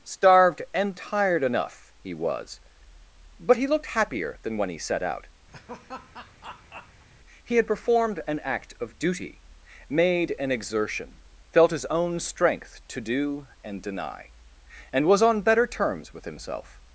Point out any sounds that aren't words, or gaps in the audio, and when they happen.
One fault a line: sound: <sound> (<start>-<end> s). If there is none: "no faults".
sound: laugh (5.5-7.1 s)